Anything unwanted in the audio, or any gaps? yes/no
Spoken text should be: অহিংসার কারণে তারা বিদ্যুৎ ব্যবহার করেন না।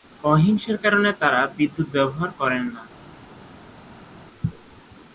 no